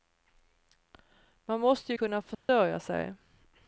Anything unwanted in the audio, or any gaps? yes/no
yes